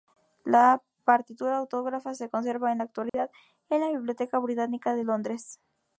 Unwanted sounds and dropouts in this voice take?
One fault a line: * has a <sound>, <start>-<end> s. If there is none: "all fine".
* has a dropout, 3.1-3.1 s